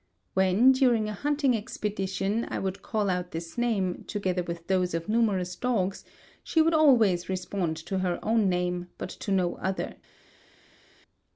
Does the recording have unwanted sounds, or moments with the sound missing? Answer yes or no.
no